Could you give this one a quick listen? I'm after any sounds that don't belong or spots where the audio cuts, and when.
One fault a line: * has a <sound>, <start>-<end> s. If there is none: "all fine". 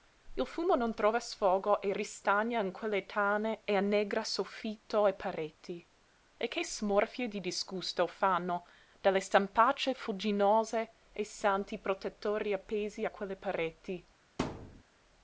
* has a thud, 14.4-14.8 s